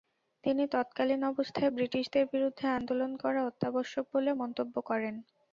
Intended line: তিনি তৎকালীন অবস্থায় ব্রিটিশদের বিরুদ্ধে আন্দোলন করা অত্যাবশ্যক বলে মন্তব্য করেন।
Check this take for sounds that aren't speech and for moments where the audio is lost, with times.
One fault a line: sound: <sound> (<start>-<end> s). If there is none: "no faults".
no faults